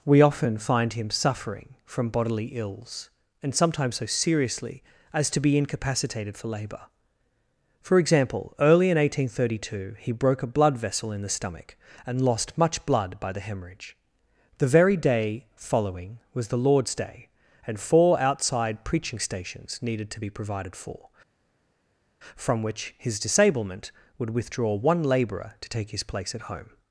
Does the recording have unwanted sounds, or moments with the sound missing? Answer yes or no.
no